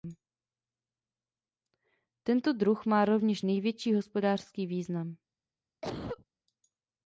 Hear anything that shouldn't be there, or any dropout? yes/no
yes